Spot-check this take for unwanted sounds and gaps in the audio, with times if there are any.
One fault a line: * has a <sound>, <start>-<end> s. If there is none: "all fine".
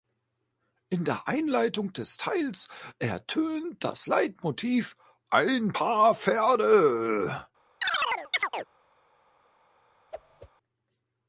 * has a chirp, 7.8-8.6 s
* has a whoosh, 10.1-10.5 s